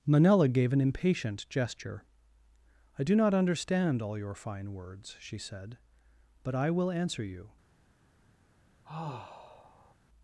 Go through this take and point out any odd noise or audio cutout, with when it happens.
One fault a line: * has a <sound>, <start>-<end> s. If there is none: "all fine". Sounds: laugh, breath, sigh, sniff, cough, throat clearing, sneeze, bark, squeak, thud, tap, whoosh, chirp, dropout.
* has a sigh, 8.8-9.9 s